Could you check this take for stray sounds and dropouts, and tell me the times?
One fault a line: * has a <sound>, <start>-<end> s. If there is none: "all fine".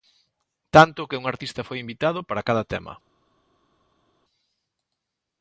all fine